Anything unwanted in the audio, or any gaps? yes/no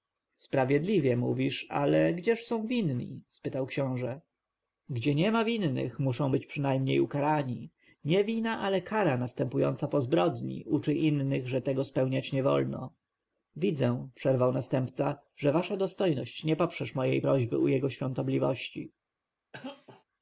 yes